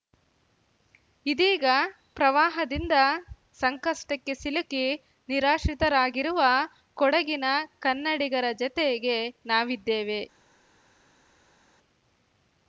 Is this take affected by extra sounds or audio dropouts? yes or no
no